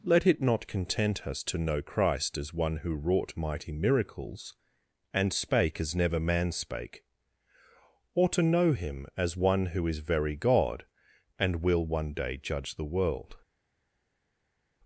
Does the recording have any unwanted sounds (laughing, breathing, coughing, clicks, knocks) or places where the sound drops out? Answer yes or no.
no